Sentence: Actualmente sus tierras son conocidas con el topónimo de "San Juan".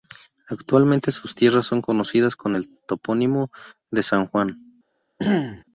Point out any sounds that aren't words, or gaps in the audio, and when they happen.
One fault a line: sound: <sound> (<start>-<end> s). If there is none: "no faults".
sound: throat clearing (5.2-5.6 s)